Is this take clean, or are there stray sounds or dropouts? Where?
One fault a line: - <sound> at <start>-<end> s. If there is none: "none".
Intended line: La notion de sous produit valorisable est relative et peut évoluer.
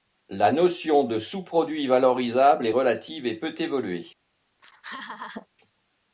- laugh at 4.6-5.5 s